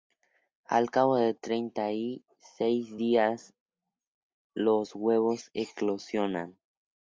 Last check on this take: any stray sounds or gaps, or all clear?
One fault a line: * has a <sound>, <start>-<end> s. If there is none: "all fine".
all fine